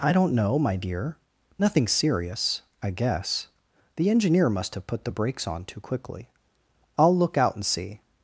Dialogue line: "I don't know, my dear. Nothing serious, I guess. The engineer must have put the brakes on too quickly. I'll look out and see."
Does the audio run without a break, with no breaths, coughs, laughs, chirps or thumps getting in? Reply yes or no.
yes